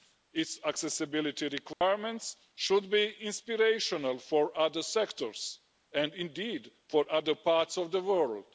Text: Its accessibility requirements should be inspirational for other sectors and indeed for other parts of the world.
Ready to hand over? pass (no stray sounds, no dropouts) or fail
fail